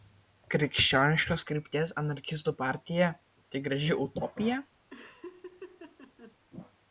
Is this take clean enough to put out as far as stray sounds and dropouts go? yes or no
no